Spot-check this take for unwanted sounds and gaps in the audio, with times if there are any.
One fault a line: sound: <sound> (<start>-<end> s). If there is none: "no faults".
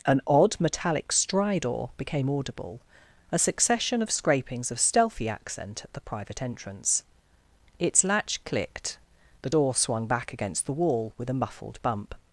no faults